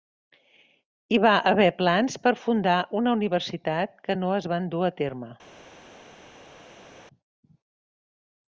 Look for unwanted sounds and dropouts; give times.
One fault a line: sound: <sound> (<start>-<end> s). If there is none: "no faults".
no faults